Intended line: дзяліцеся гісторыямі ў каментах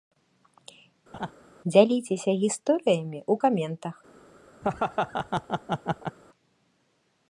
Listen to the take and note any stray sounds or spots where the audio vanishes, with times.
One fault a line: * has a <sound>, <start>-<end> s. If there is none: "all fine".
* has a laugh, 1.1-1.3 s
* has a laugh, 4.6-6.2 s